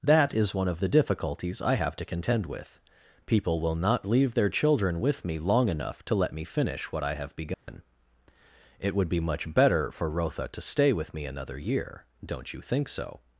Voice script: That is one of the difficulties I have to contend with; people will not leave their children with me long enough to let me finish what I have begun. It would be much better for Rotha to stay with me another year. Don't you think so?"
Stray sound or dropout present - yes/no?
yes